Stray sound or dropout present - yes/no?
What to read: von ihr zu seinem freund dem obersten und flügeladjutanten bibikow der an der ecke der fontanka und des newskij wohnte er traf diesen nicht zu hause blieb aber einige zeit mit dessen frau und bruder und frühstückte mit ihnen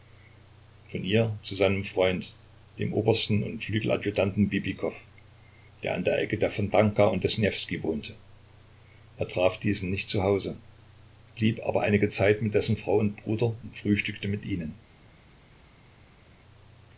no